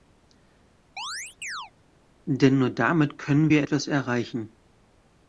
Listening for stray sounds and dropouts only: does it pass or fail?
fail